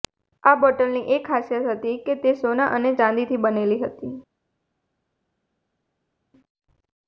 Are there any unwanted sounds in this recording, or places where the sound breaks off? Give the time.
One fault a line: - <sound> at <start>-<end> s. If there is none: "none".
none